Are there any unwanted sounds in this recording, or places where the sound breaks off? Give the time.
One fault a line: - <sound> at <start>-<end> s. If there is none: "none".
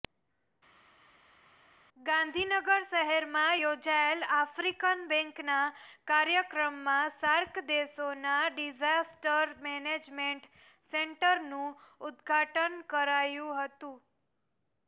none